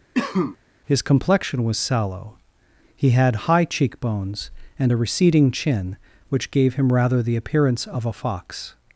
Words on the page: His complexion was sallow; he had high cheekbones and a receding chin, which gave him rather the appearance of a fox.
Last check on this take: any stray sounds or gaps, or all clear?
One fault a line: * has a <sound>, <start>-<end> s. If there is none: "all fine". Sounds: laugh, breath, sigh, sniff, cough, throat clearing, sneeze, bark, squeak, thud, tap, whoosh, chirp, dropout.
* has a cough, 0.1-0.6 s